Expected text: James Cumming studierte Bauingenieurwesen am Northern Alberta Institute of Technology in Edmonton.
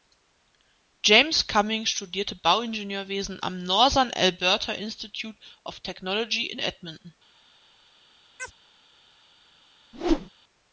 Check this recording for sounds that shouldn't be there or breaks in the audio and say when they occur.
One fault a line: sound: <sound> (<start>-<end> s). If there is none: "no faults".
sound: chirp (8.4-8.5 s)
sound: whoosh (9.9-10.3 s)